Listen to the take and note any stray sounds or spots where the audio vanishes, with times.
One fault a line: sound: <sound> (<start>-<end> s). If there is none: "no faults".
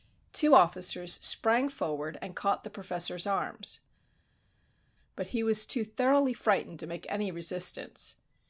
no faults